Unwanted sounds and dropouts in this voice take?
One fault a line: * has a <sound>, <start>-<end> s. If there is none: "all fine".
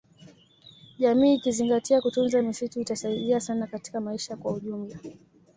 all fine